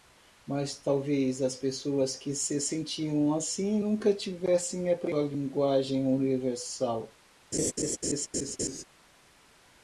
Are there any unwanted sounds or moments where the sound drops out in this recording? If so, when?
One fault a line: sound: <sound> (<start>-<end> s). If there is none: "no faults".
sound: laugh (7.5-8.8 s)